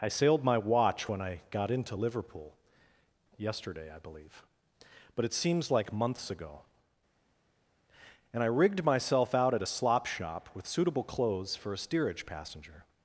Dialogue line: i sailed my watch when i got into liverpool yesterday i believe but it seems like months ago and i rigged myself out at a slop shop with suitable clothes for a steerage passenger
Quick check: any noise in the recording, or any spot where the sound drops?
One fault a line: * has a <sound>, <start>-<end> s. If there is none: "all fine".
all fine